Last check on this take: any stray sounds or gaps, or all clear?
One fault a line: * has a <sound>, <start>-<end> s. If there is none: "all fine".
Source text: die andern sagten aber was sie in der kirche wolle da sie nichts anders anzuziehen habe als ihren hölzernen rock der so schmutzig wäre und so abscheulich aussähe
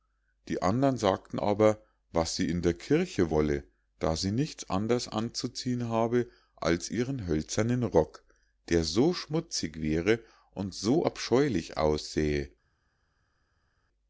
all fine